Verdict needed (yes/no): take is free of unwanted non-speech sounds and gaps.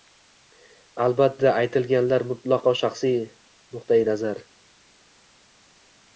yes